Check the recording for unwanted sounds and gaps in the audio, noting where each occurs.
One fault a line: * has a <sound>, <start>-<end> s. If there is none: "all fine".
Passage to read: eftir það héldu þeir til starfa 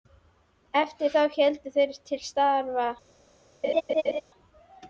* has a laugh, 3.6-4.2 s